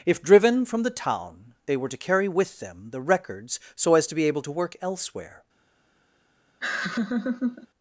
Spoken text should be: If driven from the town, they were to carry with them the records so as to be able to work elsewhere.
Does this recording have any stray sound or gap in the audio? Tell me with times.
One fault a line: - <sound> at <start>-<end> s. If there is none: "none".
- laugh at 6.6-7.7 s